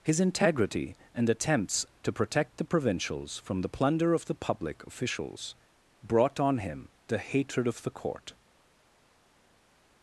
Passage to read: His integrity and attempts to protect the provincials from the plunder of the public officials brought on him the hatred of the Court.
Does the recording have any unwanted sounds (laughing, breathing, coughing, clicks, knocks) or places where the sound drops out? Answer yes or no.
no